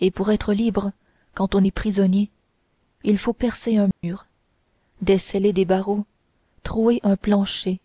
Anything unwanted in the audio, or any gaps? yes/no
yes